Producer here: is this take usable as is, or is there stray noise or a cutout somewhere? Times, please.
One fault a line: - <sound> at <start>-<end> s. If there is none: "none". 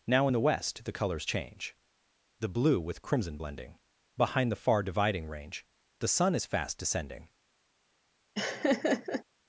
- laugh at 8.3-9.2 s